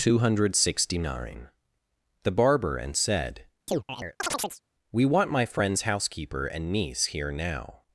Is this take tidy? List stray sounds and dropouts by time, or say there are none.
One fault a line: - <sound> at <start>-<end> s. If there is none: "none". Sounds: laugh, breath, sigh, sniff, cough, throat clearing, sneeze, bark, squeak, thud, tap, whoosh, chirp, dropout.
- chirp at 3.7-4.6 s